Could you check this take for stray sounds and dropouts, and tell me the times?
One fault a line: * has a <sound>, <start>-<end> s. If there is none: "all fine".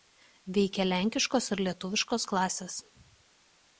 all fine